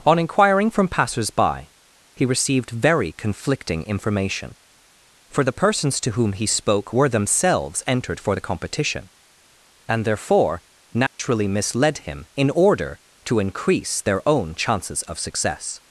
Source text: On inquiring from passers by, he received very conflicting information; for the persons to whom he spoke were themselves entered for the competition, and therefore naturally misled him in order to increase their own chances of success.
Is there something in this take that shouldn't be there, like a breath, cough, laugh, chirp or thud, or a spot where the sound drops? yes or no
yes